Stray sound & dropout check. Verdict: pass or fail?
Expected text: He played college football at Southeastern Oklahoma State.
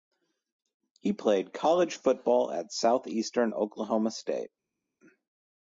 pass